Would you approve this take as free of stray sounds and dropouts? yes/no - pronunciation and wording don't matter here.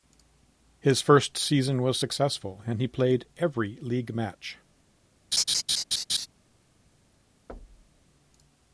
no